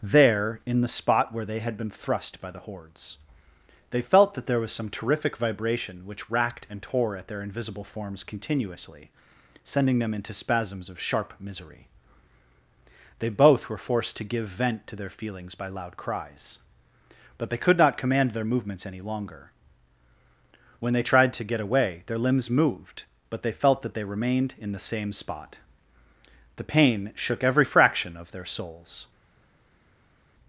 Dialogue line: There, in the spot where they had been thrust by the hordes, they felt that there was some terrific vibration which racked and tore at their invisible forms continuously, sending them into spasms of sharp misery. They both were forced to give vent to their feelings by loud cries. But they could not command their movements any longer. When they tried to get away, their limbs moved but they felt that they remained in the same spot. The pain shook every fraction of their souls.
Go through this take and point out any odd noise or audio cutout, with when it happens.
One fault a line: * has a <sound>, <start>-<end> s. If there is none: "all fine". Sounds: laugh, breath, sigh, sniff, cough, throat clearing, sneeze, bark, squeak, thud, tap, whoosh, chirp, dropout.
all fine